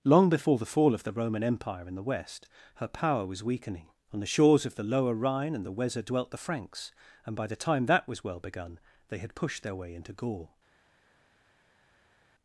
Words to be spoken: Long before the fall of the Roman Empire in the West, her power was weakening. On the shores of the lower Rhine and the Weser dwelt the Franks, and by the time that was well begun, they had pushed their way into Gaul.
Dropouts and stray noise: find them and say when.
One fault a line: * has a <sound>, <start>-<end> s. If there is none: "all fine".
all fine